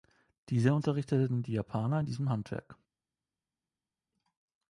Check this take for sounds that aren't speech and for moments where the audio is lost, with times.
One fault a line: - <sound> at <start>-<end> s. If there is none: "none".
none